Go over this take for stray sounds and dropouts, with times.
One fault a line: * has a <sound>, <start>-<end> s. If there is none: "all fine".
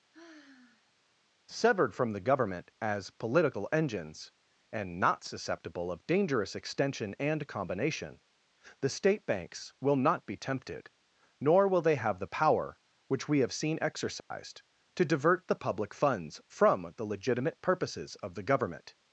* has a sigh, 0.1-0.9 s
* has a dropout, 14.2-14.3 s